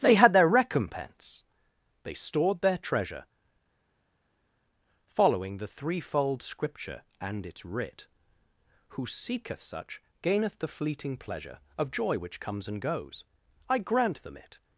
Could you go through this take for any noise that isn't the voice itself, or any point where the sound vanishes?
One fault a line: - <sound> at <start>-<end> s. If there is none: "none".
none